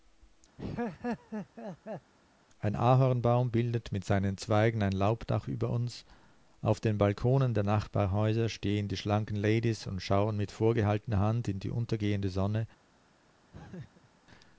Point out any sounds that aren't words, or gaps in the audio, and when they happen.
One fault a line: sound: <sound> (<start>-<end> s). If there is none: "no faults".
sound: laugh (0.6-2.1 s)
sound: laugh (13.5-14.1 s)